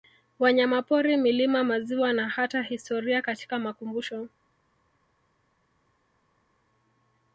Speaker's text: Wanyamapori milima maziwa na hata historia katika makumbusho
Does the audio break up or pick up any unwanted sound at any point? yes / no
no